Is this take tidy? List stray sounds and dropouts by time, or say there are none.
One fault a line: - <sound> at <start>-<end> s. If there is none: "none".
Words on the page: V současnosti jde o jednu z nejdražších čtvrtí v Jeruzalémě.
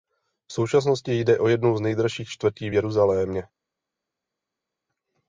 none